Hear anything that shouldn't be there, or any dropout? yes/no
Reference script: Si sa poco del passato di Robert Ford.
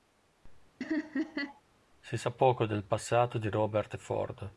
yes